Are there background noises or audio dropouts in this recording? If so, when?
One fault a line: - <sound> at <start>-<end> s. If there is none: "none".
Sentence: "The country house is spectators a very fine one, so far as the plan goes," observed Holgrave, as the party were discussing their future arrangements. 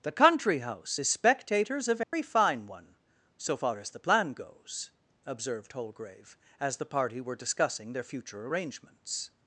- dropout at 2.0-2.1 s